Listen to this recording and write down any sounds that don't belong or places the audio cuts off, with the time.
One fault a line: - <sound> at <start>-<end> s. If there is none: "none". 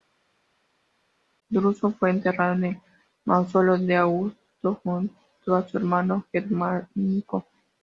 none